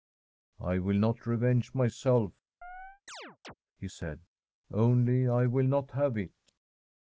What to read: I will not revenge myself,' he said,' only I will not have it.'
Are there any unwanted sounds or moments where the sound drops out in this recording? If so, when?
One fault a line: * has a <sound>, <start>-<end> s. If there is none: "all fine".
* has a chirp, 2.6-3.5 s